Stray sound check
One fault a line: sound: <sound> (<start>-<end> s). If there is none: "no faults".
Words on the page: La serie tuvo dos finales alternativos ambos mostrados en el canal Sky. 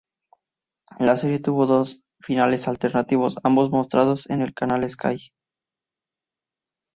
no faults